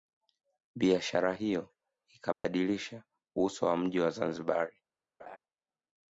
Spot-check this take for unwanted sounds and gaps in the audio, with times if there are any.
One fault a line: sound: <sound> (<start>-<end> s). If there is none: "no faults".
sound: dropout (2.3-2.4 s)
sound: laugh (5.2-5.4 s)